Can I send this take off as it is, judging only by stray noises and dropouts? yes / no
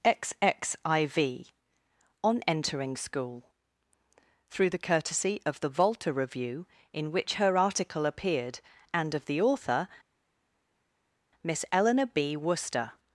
yes